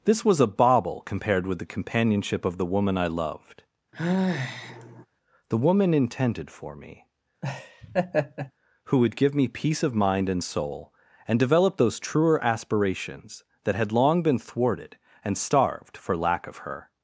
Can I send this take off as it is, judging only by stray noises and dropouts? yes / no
no